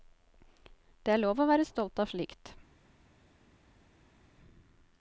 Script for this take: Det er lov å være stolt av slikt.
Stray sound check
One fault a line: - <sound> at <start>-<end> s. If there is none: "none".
none